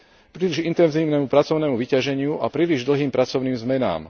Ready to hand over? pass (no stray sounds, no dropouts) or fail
pass